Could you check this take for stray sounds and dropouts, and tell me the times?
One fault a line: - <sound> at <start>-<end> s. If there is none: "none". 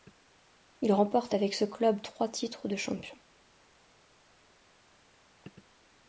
none